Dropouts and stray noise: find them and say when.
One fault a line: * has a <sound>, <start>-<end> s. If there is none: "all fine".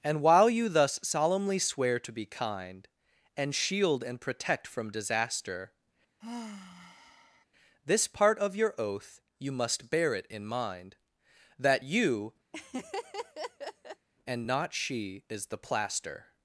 * has a sigh, 6.2-7.5 s
* has a laugh, 12.5-14.1 s